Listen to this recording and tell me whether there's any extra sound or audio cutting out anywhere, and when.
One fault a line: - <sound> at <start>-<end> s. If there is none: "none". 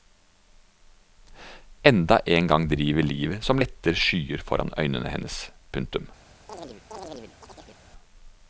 - chirp at 6.5-7.8 s